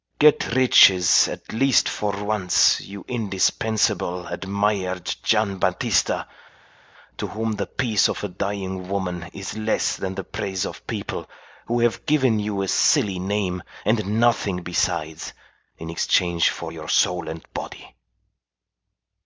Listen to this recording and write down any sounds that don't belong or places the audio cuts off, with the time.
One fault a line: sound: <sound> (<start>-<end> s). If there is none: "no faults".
no faults